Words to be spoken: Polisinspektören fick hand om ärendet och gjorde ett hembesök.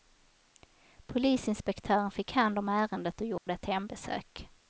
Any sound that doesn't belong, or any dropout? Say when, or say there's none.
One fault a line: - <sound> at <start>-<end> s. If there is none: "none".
- dropout at 3.4-3.5 s